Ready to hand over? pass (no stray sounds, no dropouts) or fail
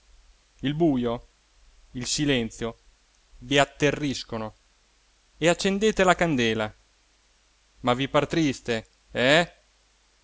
pass